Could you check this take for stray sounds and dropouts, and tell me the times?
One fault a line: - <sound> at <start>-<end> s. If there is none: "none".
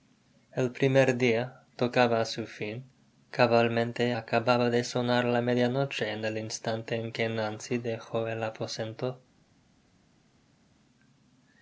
none